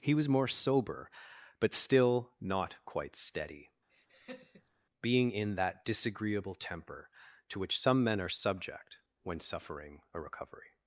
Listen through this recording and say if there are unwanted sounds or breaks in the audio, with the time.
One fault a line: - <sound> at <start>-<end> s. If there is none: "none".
- laugh at 3.9-4.8 s